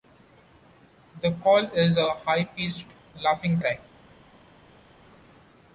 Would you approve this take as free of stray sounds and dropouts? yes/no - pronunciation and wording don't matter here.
yes